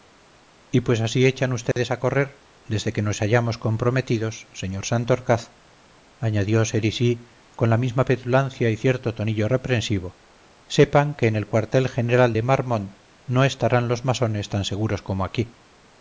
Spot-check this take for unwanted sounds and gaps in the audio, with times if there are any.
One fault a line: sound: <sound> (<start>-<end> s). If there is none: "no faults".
sound: dropout (1.7-1.8 s)